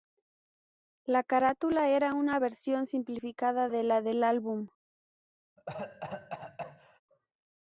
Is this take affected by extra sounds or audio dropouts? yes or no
yes